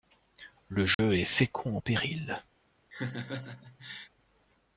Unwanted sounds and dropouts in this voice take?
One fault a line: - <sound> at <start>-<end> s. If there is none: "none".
- dropout at 0.9-1.0 s
- laugh at 2.9-4.1 s